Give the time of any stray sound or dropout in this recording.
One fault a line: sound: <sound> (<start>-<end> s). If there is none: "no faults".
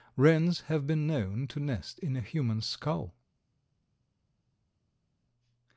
no faults